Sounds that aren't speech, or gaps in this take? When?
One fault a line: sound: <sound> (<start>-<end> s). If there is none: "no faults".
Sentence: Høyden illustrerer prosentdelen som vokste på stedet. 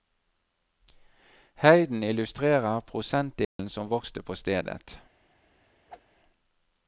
sound: dropout (3.4-3.6 s)
sound: whoosh (5.9-6.0 s)